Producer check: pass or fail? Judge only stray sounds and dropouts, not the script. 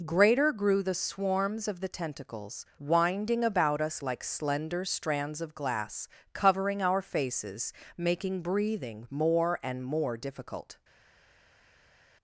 pass